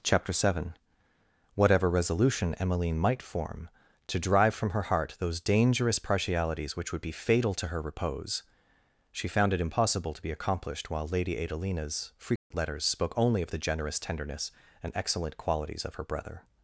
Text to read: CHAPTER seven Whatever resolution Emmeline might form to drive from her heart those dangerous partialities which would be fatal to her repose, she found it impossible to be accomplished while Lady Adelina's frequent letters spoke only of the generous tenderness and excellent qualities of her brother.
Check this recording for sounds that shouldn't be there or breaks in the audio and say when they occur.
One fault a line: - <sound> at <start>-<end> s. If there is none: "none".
- dropout at 12.4-12.5 s